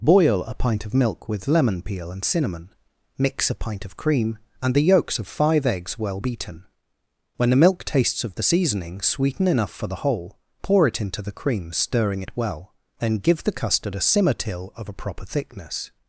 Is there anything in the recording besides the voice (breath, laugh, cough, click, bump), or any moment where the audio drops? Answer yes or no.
no